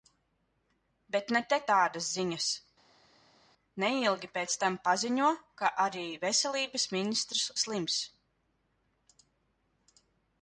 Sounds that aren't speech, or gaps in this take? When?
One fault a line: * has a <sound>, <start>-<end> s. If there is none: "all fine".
all fine